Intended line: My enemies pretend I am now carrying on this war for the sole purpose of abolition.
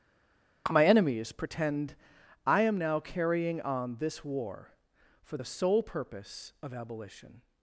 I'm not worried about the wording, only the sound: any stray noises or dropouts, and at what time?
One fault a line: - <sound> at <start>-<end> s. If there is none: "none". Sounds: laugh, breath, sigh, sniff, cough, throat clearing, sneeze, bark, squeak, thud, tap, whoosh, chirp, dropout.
none